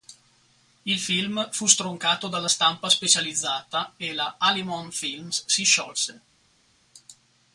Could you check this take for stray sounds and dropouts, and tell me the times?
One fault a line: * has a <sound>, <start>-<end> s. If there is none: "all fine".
all fine